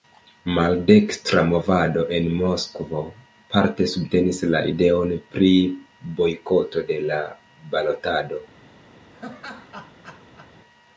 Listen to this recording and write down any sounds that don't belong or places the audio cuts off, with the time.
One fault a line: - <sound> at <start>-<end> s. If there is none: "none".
- laugh at 9.1-10.5 s